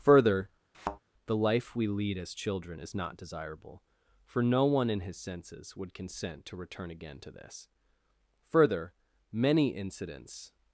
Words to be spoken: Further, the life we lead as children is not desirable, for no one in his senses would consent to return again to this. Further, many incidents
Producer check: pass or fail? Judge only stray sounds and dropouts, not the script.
fail